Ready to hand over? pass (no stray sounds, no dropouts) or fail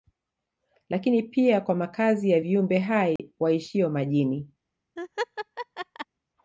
fail